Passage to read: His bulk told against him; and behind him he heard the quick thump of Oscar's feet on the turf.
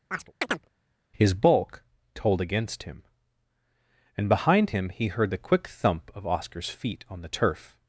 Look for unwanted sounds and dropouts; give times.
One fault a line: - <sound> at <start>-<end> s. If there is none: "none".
- chirp at 0.1-0.7 s